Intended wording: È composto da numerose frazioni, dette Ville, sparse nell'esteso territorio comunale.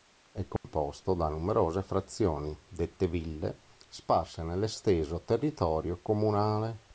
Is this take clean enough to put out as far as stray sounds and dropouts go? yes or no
no